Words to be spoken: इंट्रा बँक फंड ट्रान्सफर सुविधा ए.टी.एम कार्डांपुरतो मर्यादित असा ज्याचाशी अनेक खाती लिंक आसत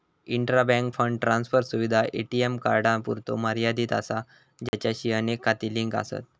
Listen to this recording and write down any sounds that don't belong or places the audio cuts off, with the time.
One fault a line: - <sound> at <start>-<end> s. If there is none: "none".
- dropout at 4.7-4.7 s